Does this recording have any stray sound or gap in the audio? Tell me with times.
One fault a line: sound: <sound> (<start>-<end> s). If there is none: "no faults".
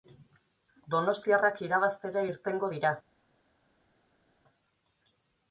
no faults